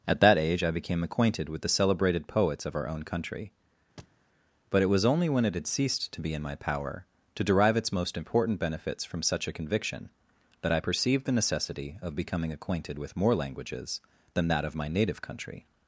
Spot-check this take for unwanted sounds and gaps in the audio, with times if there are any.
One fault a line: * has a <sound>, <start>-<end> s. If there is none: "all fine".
* has a thud, 4.0-4.2 s